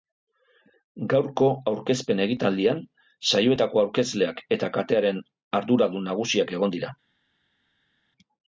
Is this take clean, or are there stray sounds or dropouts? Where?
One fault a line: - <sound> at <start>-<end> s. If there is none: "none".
none